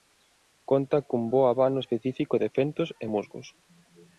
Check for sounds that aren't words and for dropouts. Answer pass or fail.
pass